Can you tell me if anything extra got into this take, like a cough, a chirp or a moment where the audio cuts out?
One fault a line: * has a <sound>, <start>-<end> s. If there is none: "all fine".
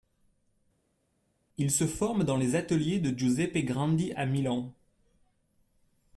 all fine